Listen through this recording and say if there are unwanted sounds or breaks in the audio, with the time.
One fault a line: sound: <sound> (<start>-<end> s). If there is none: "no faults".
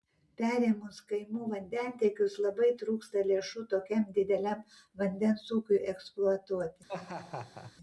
sound: laugh (6.9-7.7 s)